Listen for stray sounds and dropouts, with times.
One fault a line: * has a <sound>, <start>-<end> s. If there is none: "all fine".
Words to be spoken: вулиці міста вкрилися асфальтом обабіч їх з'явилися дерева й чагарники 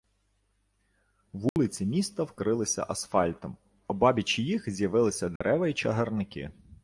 * has a dropout, 1.5-1.6 s
* has a dropout, 5.4-5.4 s